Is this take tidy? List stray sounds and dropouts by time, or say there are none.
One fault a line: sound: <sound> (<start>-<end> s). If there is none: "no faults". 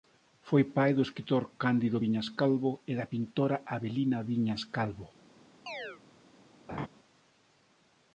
sound: chirp (5.7-6.0 s)
sound: laugh (6.7-6.9 s)